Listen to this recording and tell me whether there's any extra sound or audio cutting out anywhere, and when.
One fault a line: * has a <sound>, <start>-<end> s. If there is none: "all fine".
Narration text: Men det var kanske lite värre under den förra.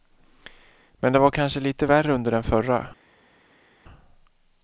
all fine